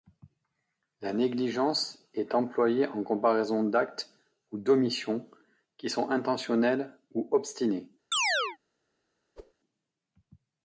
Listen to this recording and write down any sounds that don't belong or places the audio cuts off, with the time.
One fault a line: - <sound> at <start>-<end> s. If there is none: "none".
- chirp at 8.1-8.6 s
- whoosh at 9.4-9.5 s